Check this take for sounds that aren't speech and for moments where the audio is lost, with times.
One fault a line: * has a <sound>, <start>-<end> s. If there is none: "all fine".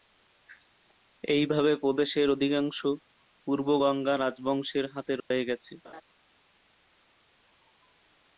* has a dropout, 5.2-5.3 s
* has a laugh, 5.8-6.0 s